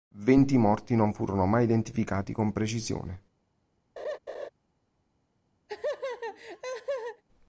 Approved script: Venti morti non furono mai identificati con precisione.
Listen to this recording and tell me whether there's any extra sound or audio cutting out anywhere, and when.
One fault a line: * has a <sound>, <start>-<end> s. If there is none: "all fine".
* has a laugh, 4.0-4.5 s
* has a laugh, 5.7-7.2 s